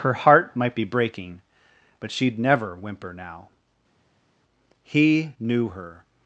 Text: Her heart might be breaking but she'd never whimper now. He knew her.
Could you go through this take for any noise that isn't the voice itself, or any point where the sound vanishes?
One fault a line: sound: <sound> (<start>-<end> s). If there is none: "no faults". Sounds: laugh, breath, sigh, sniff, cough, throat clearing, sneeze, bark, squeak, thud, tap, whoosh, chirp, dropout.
no faults